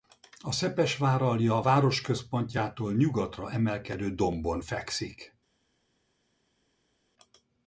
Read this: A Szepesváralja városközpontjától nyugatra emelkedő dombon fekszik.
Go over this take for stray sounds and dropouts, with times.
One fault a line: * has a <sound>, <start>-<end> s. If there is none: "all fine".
all fine